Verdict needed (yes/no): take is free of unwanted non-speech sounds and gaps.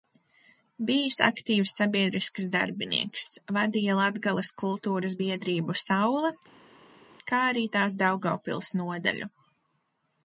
yes